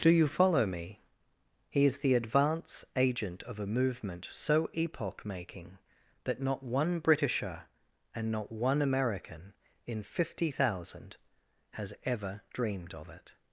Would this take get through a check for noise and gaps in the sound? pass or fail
pass